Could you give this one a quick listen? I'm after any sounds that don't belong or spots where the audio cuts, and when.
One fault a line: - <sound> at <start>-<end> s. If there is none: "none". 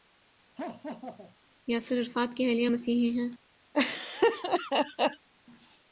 - laugh at 0.6-1.4 s
- laugh at 3.7-5.3 s